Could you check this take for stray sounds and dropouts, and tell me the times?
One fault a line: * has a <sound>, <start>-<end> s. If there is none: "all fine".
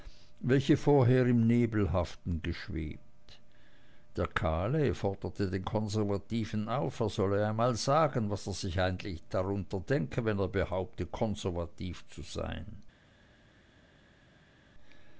all fine